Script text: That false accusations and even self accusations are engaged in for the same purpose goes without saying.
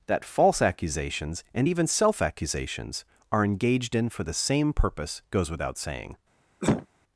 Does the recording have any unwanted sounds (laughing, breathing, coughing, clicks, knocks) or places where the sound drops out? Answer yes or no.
yes